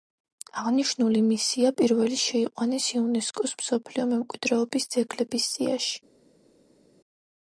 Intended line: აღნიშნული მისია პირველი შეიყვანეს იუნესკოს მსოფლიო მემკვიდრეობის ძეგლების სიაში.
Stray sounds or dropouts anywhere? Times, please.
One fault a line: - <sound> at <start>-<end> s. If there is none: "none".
none